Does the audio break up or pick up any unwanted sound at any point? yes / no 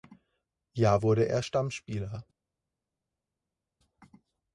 no